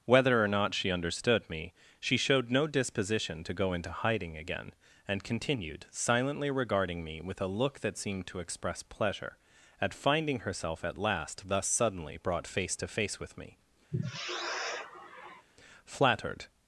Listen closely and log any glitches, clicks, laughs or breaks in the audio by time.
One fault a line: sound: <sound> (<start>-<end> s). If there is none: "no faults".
sound: sigh (13.9-15.5 s)